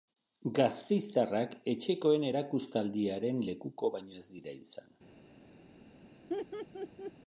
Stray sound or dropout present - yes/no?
yes